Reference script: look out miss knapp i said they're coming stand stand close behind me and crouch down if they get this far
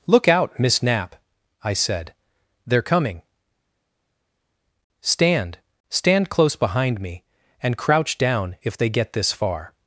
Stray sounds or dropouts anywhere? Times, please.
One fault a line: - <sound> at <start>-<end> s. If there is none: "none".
none